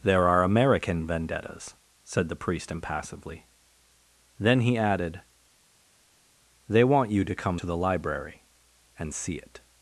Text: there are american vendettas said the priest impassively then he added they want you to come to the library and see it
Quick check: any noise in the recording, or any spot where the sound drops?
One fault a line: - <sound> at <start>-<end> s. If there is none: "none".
none